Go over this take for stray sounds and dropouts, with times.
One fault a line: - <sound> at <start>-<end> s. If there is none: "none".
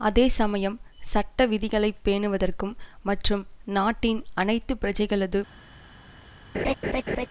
- laugh at 6.5-7.3 s